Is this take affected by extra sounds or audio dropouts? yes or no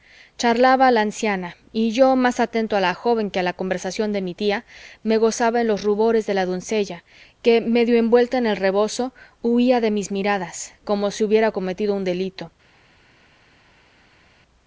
no